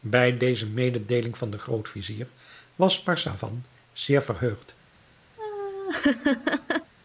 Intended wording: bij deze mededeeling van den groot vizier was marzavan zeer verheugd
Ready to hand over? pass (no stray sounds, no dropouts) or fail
fail